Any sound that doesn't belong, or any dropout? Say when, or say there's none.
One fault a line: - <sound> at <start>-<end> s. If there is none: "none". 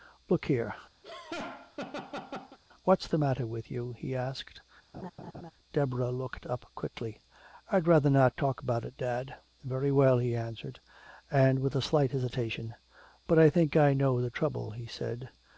- laugh at 1.0-2.6 s
- laugh at 4.9-5.5 s